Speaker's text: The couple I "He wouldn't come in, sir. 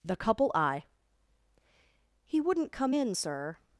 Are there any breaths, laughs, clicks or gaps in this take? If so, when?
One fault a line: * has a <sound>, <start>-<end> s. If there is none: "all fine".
all fine